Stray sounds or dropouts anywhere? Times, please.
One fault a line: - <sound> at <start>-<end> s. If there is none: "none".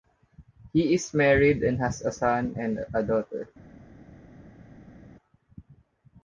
none